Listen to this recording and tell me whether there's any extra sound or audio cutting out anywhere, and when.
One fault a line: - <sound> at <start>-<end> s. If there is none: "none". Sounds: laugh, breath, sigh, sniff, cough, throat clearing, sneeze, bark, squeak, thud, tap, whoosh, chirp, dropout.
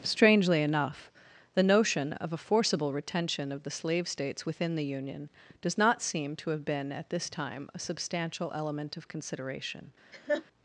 - laugh at 10.1-10.4 s